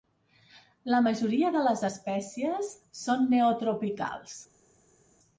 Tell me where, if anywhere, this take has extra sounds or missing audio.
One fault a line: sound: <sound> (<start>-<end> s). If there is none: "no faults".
no faults